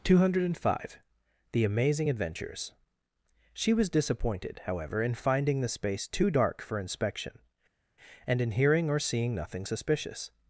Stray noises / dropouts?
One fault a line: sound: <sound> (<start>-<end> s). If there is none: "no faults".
no faults